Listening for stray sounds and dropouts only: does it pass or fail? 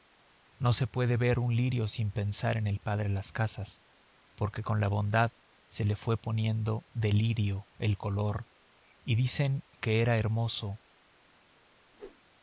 fail